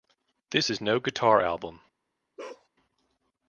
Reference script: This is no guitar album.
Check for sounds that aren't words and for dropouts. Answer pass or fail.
fail